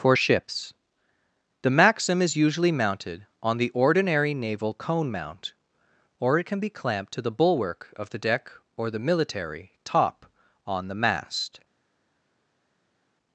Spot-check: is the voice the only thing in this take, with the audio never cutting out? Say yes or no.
yes